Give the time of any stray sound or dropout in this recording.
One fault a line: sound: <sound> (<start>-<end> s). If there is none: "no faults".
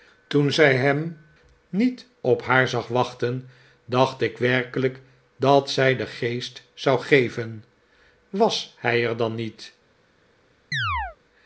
sound: chirp (10.7-11.2 s)